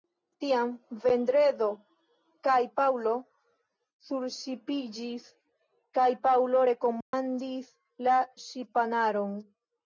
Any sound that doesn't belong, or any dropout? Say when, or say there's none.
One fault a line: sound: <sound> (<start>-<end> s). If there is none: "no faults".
sound: dropout (7.0-7.1 s)